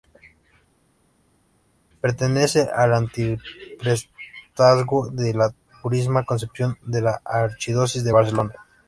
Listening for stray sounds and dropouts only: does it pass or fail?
pass